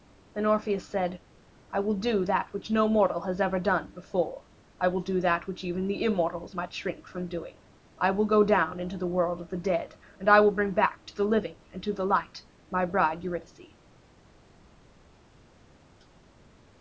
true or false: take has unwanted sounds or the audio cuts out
false